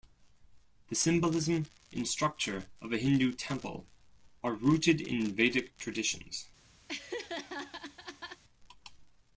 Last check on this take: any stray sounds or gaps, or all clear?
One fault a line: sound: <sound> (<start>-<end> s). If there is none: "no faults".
sound: laugh (6.9-8.4 s)